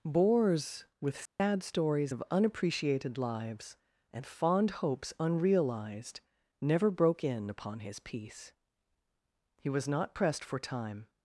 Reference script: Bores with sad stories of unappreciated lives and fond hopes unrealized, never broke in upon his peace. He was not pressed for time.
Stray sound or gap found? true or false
true